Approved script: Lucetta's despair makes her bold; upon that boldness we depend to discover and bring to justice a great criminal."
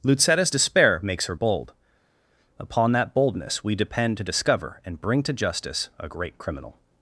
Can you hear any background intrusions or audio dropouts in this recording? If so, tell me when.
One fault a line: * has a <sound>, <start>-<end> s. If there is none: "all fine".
all fine